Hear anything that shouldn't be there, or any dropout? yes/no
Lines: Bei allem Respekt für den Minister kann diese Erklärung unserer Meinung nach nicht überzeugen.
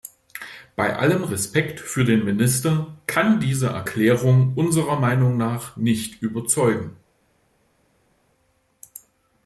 no